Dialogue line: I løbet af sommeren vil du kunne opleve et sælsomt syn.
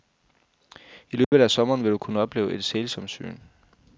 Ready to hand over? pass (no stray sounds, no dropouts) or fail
fail